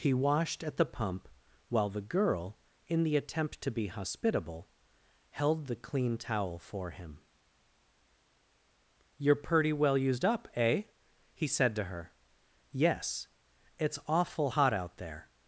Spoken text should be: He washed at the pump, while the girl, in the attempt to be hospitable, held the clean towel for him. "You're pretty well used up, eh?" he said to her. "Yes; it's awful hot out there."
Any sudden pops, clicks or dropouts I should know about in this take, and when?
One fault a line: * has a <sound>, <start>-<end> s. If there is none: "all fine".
all fine